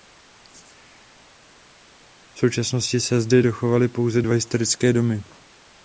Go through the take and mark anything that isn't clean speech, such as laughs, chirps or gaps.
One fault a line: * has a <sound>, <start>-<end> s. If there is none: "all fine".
all fine